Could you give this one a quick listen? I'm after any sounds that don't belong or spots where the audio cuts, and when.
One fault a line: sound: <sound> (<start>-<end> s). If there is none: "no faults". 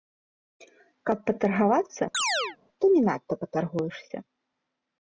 sound: chirp (2.1-2.6 s)